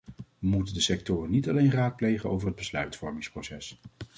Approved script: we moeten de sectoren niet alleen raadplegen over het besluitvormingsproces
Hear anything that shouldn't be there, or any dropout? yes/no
no